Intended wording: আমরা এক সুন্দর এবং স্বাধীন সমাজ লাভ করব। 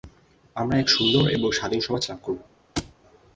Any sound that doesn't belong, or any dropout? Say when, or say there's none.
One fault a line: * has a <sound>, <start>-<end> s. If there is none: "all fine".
* has a thud, 2.8-2.9 s